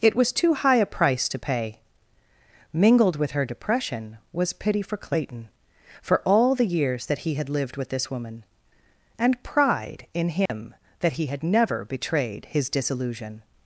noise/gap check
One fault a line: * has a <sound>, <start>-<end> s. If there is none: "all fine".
* has a dropout, 10.5-10.5 s